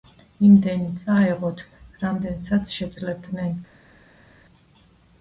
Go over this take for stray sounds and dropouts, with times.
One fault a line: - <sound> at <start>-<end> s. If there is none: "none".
none